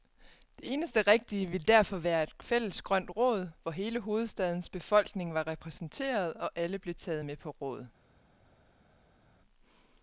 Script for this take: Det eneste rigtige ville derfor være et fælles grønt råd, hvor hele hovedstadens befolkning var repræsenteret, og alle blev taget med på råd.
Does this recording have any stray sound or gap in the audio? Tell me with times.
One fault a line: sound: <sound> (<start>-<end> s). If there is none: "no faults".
no faults